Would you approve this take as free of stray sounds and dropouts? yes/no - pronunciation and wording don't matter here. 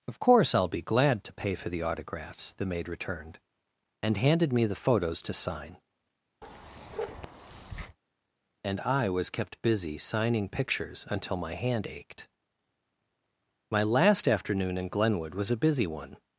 no